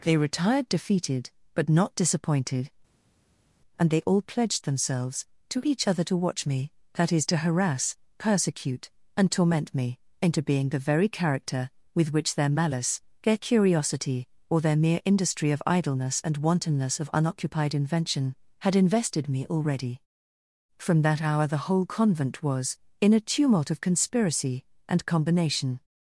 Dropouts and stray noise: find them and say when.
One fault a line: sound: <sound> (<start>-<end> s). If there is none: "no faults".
no faults